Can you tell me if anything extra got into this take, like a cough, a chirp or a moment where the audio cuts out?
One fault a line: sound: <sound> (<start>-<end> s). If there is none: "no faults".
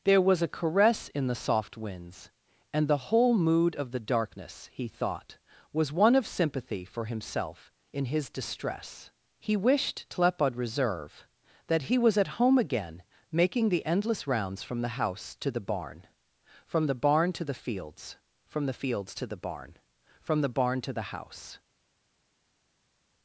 no faults